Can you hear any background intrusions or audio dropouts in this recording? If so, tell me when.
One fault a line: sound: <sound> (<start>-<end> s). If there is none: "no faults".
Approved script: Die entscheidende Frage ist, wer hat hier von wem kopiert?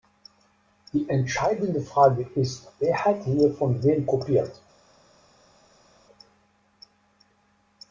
no faults